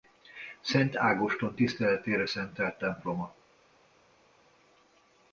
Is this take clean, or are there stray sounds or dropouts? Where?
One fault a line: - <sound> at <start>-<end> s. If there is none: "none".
none